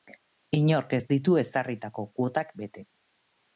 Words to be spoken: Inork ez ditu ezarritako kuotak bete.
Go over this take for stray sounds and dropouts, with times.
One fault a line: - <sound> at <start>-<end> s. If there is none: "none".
none